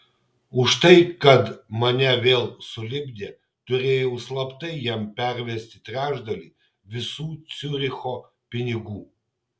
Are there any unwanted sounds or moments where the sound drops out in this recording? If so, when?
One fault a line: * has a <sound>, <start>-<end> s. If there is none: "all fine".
all fine